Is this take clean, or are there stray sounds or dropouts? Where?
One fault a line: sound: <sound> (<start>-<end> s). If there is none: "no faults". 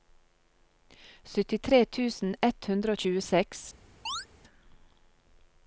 sound: chirp (4.1-4.3 s)